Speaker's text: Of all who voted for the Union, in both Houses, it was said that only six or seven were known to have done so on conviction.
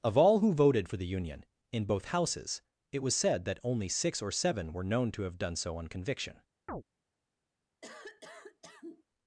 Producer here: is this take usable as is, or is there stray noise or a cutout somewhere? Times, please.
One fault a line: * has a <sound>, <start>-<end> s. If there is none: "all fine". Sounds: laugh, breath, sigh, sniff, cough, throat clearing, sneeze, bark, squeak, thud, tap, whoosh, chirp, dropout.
* has a chirp, 6.7-6.8 s
* has a cough, 7.8-9.0 s